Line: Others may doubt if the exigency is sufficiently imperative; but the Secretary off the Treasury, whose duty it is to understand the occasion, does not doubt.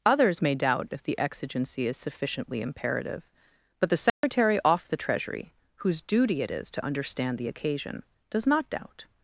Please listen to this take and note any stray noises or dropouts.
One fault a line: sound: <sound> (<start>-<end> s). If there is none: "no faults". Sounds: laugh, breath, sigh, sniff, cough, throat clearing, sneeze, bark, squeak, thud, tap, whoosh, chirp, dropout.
sound: dropout (4.1-4.2 s)